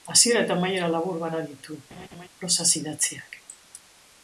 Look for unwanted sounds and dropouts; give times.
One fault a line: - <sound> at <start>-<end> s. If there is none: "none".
- laugh at 1.9-2.3 s